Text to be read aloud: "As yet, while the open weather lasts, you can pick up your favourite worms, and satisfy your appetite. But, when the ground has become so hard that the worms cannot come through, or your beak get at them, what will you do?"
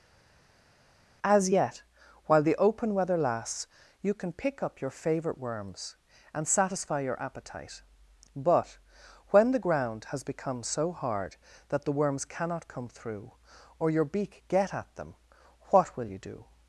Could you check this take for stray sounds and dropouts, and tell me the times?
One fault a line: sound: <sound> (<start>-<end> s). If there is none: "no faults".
no faults